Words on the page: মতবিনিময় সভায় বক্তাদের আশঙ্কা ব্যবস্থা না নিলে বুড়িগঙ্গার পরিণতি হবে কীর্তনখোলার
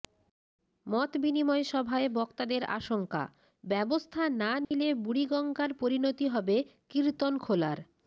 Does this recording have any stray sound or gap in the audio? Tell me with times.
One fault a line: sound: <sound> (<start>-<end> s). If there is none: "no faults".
sound: dropout (4.6-4.7 s)